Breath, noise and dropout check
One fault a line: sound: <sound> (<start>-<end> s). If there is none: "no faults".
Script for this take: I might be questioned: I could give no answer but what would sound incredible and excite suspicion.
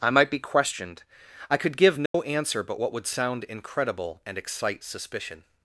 sound: dropout (2.1-2.1 s)